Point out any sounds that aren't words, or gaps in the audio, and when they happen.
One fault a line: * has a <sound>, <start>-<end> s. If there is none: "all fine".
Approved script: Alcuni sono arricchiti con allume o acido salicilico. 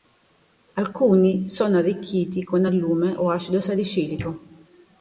all fine